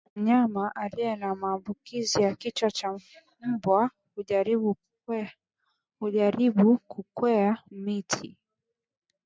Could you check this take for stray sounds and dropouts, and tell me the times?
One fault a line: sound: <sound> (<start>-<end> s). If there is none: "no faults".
no faults